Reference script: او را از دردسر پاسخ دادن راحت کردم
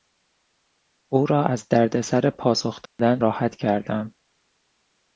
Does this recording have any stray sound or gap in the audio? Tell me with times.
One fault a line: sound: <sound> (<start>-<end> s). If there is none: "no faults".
sound: dropout (2.9-3.0 s)